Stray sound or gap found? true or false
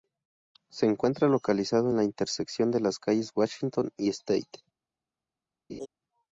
true